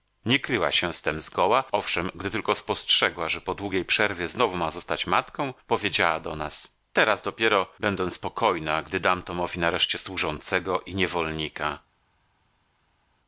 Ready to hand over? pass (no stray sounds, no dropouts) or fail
pass